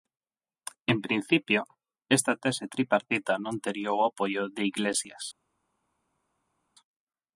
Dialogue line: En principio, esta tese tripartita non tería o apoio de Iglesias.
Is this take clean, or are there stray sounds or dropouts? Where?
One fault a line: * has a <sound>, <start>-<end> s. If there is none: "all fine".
all fine